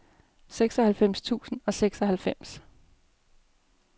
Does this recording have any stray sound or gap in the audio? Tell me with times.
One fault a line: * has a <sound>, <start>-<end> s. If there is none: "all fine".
all fine